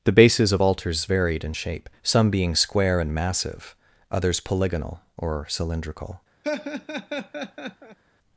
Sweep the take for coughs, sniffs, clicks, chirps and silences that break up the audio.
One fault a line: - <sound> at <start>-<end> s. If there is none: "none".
- laugh at 6.4-8.0 s